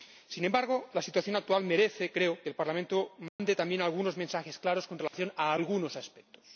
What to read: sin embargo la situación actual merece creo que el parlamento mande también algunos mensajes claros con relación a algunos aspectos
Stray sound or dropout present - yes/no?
yes